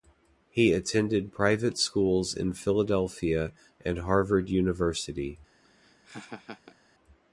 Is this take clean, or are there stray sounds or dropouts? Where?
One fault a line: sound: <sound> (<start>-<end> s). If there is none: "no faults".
sound: laugh (5.6-6.8 s)